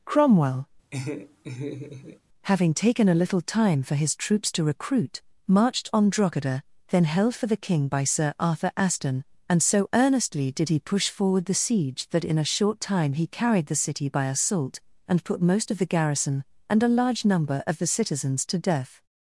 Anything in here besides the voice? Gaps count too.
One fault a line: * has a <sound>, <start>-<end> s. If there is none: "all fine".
* has a laugh, 0.9-2.2 s